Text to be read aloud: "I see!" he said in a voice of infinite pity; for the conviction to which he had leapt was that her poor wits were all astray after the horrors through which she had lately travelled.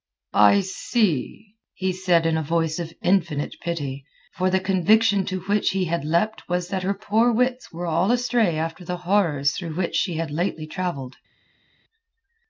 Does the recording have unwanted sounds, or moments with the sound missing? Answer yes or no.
no